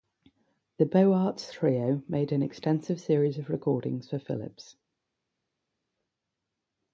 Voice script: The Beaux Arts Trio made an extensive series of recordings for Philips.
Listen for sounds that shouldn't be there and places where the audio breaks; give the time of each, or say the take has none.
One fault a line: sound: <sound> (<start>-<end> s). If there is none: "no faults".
no faults